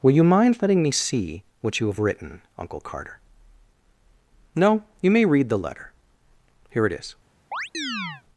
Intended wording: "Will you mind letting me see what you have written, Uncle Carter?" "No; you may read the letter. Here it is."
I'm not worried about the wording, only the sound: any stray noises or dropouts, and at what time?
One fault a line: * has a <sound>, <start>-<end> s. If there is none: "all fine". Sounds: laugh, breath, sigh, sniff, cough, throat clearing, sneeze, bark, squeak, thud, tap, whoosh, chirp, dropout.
* has a chirp, 7.5-8.2 s